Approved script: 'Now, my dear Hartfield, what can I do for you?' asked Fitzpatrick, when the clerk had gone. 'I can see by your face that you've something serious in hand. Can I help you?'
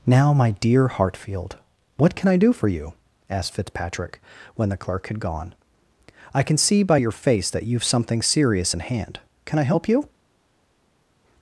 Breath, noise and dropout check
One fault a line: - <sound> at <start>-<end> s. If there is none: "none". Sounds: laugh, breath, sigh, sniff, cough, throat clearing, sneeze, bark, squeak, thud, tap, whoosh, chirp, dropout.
none